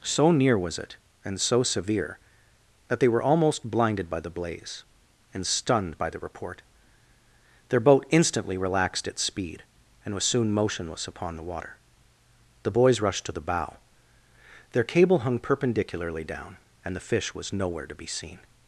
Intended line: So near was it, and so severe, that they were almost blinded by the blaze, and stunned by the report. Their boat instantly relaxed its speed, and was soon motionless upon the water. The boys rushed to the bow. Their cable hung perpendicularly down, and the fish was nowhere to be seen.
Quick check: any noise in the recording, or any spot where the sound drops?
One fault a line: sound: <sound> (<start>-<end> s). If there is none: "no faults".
no faults